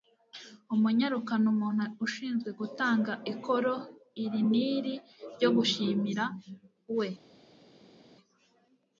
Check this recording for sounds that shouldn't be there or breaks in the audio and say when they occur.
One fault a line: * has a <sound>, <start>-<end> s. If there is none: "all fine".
all fine